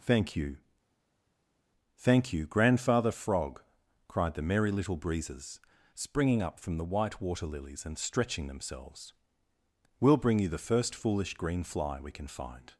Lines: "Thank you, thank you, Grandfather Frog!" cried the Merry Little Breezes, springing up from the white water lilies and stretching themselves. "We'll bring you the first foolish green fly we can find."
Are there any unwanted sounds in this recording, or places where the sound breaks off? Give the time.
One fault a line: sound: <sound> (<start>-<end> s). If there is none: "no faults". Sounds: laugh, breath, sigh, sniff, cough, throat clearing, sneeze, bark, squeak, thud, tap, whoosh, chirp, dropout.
no faults